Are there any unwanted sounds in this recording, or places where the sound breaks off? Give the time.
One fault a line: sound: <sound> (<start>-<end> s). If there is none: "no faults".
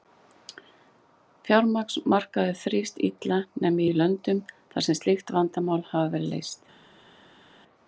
no faults